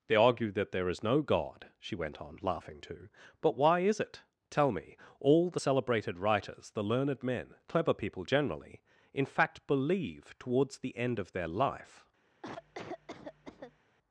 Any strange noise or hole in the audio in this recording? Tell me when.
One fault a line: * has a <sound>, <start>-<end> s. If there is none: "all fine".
* has a cough, 12.4-13.8 s